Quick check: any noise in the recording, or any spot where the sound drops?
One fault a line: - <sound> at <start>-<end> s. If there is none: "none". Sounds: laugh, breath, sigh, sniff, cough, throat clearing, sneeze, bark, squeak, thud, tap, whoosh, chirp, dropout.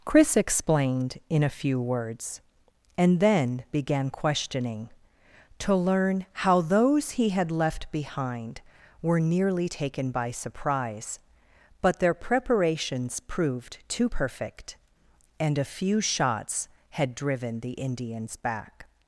none